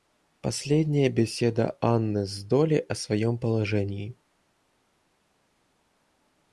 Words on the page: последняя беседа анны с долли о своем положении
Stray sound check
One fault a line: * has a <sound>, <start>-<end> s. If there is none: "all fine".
all fine